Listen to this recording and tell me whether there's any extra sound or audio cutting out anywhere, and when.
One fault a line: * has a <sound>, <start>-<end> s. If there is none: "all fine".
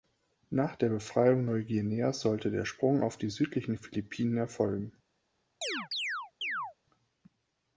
* has a chirp, 5.6-6.7 s